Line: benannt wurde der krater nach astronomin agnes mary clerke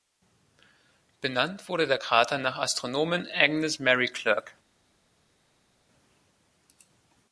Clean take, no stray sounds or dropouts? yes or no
yes